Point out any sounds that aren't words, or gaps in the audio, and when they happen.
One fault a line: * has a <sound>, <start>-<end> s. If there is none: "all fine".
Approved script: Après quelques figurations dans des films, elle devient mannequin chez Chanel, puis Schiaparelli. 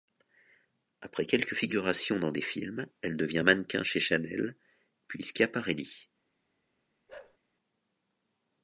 * has a bark, 7.1-7.4 s